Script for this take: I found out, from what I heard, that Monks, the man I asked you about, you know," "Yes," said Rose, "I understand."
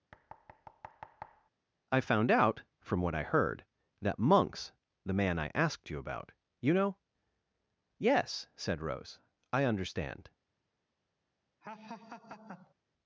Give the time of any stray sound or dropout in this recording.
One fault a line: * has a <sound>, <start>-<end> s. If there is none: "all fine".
* has a thud, 0.1-1.5 s
* has a laugh, 11.6-12.7 s